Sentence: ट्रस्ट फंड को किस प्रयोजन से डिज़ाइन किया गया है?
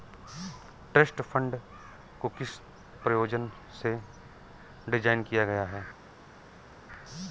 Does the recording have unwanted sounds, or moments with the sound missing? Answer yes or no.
no